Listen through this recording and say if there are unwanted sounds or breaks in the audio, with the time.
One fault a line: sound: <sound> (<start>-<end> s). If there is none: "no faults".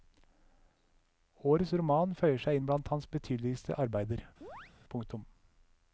sound: chirp (4.4-4.7 s)